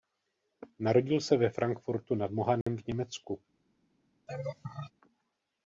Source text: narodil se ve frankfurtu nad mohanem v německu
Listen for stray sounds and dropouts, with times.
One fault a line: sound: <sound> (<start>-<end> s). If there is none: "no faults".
sound: dropout (2.6-2.7 s)
sound: laugh (4.3-4.9 s)